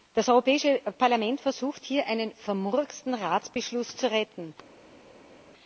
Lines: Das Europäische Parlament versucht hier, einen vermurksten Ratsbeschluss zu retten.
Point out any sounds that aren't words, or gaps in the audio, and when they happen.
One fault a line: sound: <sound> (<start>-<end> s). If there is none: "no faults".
no faults